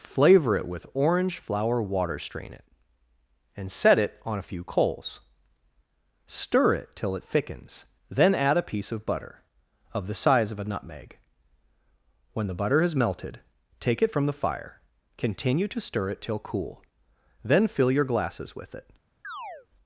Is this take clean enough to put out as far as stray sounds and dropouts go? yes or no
no